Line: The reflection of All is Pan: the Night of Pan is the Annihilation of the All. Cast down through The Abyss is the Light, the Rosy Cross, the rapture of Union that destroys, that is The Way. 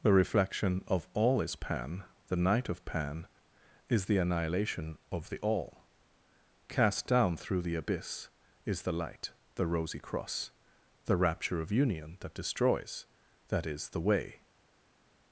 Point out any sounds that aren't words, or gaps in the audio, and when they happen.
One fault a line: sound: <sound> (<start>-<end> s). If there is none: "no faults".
no faults